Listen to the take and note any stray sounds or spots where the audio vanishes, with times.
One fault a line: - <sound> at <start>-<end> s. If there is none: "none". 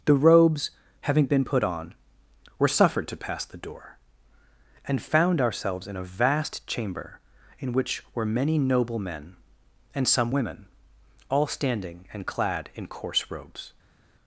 none